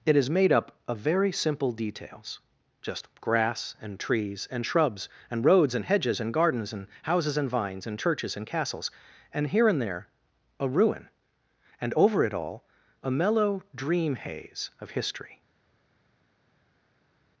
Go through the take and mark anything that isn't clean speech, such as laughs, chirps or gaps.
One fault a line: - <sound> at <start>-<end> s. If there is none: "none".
none